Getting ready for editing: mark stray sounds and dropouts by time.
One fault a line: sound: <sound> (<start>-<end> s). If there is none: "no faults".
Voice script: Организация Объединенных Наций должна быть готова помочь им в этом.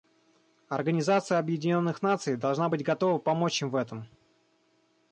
no faults